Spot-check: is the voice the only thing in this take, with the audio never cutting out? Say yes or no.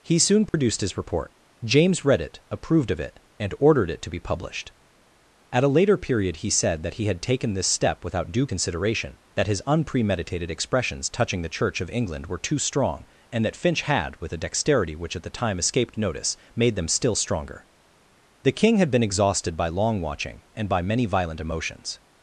no